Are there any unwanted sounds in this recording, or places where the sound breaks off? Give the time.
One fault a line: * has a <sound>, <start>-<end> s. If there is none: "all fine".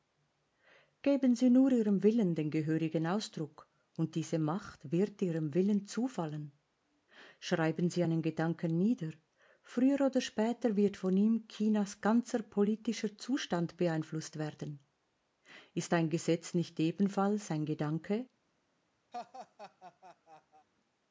* has a laugh, 19.1-20.7 s